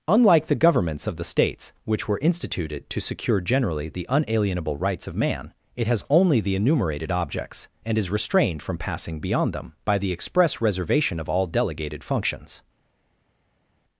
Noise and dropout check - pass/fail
pass